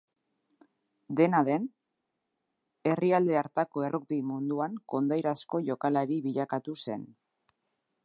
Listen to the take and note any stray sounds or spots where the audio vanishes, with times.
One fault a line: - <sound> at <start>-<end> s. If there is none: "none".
none